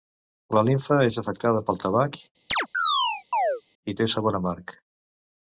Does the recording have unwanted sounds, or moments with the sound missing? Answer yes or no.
yes